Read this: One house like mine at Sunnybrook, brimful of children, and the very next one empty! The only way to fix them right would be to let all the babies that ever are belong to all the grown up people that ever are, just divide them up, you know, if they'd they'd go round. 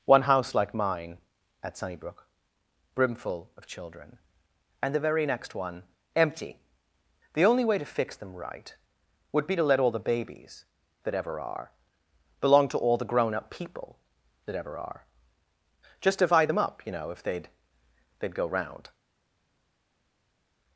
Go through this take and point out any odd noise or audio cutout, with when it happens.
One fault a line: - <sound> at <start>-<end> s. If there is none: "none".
none